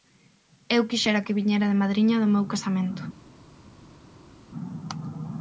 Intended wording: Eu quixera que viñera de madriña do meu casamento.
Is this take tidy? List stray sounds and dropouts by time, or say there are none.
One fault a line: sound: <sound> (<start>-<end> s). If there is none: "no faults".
no faults